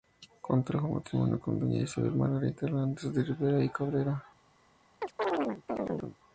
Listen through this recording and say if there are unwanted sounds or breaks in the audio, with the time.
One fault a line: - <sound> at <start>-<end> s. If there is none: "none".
- chirp at 5.0-6.2 s